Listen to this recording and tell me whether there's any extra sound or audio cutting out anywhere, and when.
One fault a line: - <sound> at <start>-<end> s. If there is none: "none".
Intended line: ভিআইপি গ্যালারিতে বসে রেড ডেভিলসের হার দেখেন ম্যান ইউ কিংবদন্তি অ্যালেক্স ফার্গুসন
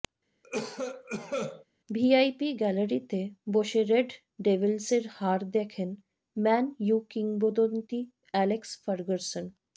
- cough at 0.4-1.7 s